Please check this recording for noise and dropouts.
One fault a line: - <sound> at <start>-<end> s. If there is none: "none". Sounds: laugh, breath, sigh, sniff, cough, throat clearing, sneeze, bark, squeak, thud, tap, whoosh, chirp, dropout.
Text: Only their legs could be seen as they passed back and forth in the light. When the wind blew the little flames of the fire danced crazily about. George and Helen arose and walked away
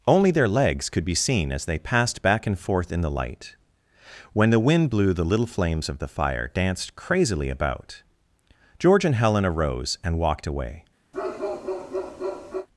- bark at 11.1-12.7 s